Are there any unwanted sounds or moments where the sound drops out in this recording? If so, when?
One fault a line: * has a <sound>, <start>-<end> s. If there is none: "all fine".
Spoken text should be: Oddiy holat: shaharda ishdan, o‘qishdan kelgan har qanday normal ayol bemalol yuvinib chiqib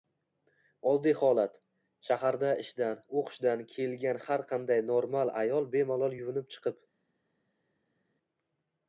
all fine